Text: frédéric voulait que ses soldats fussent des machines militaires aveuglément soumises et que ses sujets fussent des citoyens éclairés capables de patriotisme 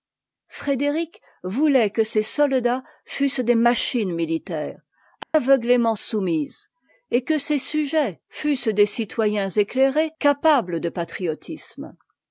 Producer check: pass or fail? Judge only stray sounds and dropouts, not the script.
fail